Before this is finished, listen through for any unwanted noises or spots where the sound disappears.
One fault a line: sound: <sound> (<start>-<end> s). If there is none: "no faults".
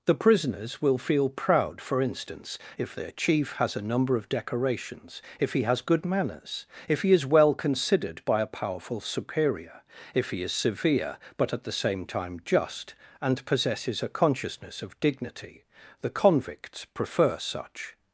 no faults